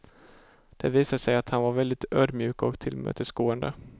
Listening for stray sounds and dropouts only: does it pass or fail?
pass